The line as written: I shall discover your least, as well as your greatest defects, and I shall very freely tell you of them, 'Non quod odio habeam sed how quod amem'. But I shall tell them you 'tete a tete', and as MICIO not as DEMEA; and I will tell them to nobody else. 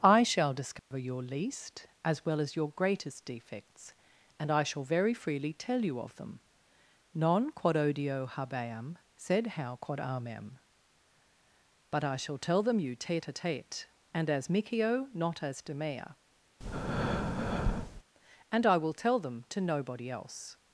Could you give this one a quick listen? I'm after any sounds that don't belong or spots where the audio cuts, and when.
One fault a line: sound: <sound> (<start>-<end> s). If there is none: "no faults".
sound: dropout (0.8-0.9 s)
sound: breath (16.6-18.0 s)